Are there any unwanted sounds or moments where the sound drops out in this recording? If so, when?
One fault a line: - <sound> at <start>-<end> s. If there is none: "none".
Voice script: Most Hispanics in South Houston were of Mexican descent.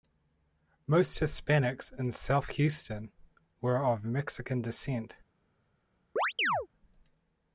- chirp at 6.2-6.7 s